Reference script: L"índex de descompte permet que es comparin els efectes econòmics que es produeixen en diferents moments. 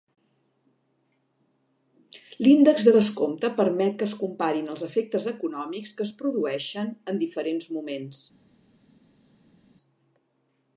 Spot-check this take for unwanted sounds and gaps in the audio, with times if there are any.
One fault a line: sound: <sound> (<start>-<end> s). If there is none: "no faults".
no faults